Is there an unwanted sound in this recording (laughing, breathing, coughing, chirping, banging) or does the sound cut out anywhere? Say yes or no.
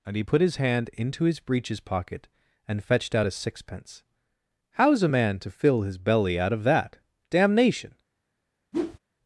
yes